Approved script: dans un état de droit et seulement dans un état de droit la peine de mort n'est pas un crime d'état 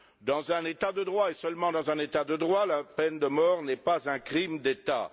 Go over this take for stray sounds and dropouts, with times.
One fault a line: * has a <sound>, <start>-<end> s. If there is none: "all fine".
all fine